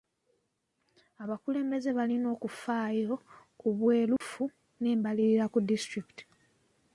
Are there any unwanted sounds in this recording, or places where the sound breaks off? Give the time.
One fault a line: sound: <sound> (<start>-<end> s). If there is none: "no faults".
sound: dropout (4.2-4.2 s)